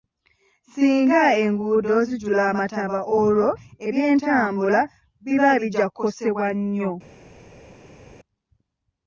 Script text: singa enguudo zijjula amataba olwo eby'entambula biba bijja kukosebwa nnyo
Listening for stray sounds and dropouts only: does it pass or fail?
pass